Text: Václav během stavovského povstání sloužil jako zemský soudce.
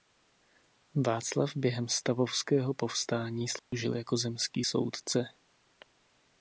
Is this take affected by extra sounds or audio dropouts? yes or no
yes